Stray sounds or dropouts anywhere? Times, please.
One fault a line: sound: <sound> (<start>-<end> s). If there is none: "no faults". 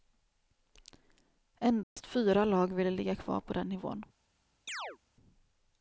sound: dropout (1.8-2.0 s)
sound: chirp (4.7-5.0 s)